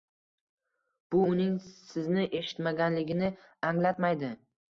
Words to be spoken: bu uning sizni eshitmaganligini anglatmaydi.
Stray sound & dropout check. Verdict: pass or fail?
pass